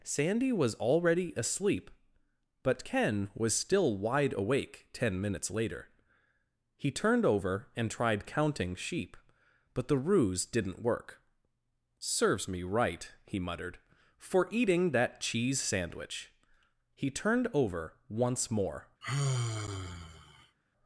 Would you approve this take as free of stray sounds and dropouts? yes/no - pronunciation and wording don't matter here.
no